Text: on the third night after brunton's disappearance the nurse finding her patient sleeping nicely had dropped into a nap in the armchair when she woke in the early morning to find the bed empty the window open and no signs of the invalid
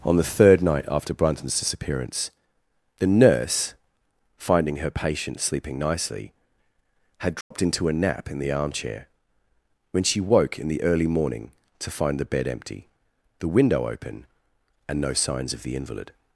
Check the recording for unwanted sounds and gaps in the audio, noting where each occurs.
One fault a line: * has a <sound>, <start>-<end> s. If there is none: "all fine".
* has a dropout, 7.4-7.5 s